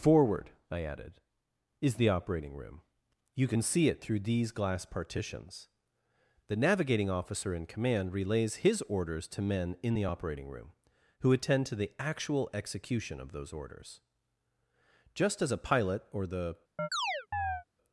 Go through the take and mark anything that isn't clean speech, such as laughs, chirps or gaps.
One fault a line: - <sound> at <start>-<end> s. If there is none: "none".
- chirp at 16.8-17.6 s